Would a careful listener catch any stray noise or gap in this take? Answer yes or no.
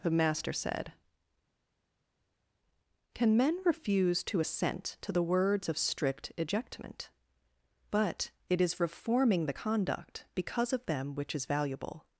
no